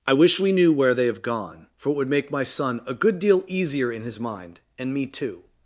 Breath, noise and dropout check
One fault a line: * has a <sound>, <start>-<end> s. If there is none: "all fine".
all fine